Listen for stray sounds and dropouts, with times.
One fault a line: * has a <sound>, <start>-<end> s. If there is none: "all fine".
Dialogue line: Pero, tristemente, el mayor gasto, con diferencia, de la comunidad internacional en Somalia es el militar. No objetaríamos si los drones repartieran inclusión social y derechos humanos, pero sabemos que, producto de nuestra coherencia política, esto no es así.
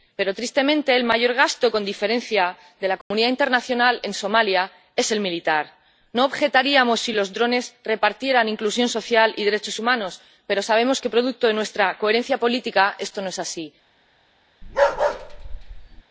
* has a dropout, 3.0-3.1 s
* has a bark, 14.6-16.0 s